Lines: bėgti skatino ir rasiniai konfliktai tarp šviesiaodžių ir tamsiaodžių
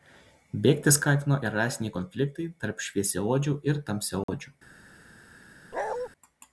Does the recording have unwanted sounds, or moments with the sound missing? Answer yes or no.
yes